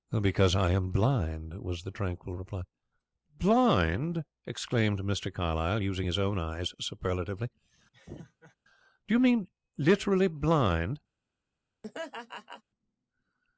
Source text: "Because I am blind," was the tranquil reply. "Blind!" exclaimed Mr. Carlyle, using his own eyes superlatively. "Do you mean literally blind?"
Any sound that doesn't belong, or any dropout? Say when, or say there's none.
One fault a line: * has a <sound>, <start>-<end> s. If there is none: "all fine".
* has a laugh, 7.9-8.6 s
* has a laugh, 11.8-12.6 s